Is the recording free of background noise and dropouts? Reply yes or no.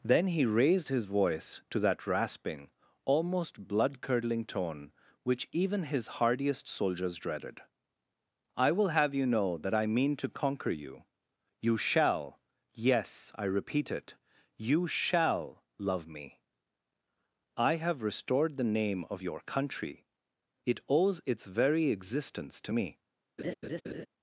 no